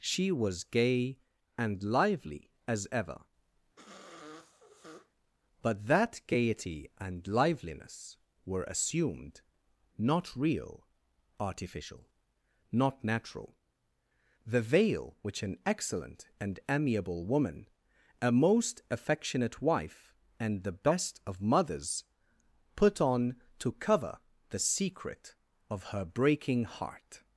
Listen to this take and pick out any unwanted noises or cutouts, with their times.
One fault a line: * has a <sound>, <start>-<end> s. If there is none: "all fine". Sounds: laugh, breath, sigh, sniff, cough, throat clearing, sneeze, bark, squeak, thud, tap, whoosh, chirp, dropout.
* has a sniff, 3.8-5.1 s